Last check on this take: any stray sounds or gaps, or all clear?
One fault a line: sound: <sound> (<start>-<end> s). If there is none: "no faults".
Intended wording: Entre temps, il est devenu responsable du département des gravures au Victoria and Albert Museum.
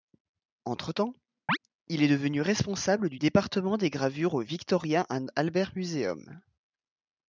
sound: chirp (1.5-1.6 s)